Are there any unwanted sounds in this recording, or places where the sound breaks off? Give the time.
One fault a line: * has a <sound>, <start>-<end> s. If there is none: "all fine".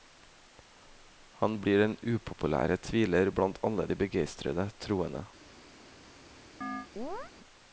* has a chirp, 6.6-7.3 s